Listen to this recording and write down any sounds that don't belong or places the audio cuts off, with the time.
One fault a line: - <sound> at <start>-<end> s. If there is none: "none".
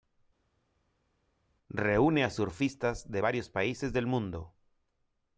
none